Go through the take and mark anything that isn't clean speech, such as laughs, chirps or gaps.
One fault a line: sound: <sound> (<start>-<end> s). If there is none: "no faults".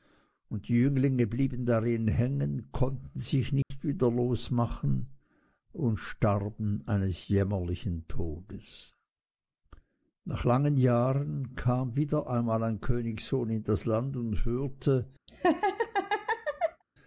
sound: dropout (3.6-3.7 s)
sound: laugh (15.3-16.8 s)